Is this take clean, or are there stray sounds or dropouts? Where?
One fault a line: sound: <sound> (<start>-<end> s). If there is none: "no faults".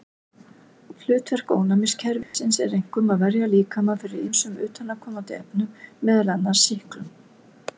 sound: dropout (2.2-2.3 s)